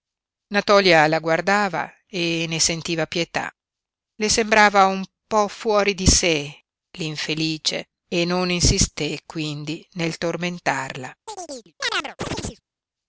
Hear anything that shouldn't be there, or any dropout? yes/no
yes